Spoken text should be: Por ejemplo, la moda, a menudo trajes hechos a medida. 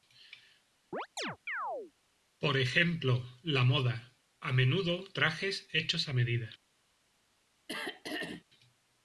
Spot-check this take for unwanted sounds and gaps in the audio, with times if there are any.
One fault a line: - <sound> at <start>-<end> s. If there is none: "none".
- chirp at 0.9-1.9 s
- throat clearing at 7.7-8.4 s